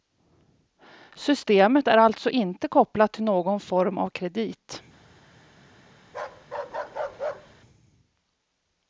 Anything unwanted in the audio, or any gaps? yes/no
yes